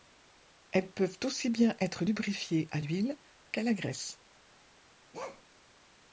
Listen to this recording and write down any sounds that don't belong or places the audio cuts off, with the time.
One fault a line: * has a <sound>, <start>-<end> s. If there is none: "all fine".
* has a bark, 5.1-5.4 s